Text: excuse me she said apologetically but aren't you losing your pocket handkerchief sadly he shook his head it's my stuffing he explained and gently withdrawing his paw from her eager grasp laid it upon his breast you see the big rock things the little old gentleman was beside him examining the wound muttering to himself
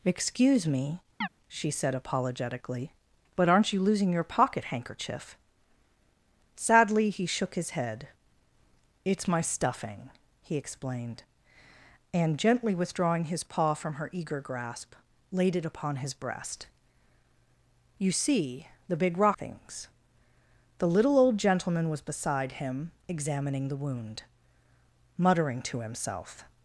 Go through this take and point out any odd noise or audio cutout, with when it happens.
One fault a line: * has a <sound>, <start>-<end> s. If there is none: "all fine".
* has a chirp, 1.2-1.3 s